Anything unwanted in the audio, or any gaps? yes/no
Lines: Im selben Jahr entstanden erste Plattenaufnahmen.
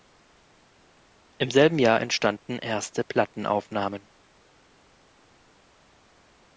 no